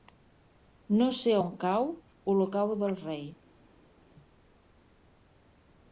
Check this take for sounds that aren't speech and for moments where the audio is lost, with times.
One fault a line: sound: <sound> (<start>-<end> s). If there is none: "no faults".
no faults